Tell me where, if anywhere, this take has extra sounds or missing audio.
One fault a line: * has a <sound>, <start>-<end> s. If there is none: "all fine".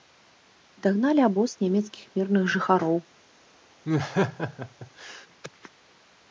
* has a laugh, 3.8-5.3 s